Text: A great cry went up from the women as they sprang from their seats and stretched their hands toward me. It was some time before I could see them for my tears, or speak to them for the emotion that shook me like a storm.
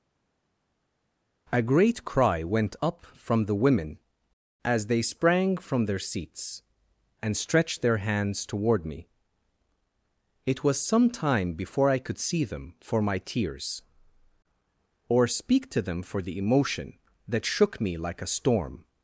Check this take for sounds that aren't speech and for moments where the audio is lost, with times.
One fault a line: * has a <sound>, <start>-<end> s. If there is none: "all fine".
all fine